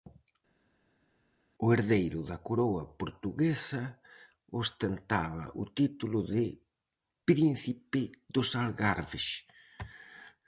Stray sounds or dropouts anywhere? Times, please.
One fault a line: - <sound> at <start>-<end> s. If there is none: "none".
none